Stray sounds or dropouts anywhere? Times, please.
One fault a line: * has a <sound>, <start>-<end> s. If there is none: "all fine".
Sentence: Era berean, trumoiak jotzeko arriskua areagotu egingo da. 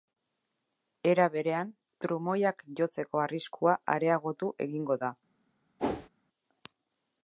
* has a whoosh, 5.8-6.1 s